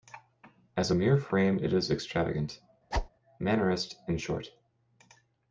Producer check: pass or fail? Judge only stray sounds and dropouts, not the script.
fail